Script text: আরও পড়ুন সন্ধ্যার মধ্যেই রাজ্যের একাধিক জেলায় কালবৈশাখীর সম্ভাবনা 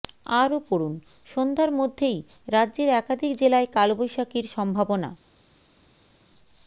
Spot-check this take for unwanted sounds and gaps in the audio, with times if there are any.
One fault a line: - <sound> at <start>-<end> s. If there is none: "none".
none